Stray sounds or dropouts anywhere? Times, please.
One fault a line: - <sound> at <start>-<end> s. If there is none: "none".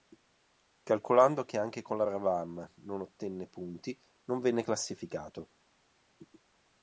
none